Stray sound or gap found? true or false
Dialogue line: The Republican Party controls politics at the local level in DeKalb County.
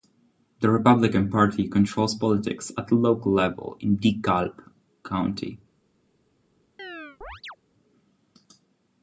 true